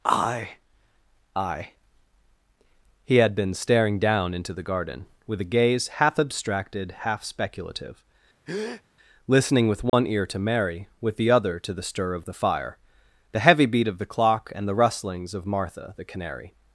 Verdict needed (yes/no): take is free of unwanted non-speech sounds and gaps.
no